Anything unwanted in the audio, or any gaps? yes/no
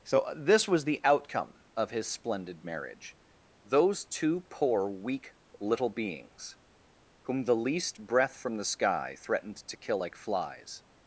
no